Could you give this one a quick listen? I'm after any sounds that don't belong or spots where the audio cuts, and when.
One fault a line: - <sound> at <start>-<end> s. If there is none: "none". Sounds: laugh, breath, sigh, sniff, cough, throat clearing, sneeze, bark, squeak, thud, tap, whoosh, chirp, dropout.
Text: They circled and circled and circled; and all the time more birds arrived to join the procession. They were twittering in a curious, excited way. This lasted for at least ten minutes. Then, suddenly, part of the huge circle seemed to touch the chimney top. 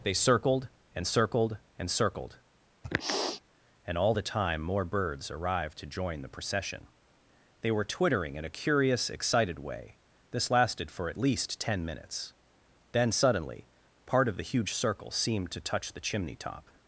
- sniff at 2.8-3.4 s